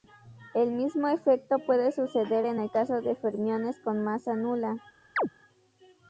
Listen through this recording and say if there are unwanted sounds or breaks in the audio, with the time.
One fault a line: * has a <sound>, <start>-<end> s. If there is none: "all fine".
* has a chirp, 5.2-5.3 s